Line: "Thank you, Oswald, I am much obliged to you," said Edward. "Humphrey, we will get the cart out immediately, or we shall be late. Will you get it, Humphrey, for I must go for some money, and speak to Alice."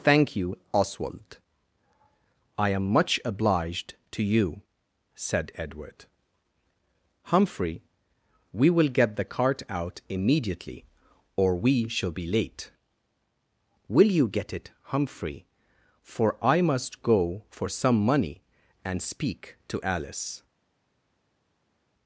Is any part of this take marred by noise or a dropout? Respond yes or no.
no